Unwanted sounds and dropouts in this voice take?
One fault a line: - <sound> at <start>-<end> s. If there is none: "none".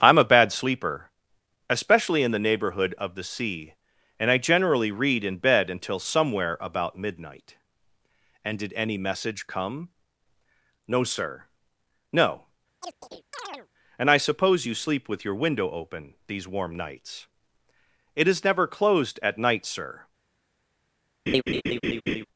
- chirp at 12.8-13.7 s
- laugh at 21.3-22.3 s